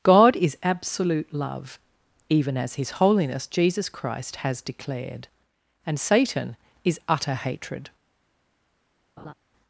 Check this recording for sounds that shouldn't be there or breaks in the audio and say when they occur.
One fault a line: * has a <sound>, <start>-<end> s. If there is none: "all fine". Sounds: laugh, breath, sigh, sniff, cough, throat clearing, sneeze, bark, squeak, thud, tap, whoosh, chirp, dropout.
* has a laugh, 9.2-9.3 s